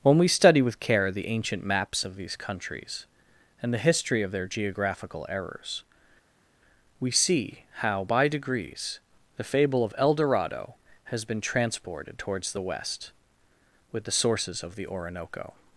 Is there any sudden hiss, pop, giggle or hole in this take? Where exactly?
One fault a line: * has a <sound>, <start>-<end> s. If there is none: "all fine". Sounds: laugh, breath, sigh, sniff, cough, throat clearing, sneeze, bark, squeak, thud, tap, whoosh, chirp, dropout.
all fine